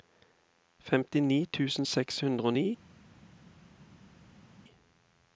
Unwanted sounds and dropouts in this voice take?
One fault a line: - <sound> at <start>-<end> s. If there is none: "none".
none